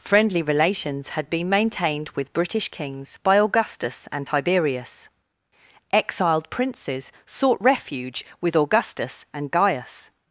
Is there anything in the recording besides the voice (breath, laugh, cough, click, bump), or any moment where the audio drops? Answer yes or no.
no